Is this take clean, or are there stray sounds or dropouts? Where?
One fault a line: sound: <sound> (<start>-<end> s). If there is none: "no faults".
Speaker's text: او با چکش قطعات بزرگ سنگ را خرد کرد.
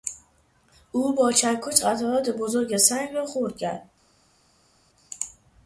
no faults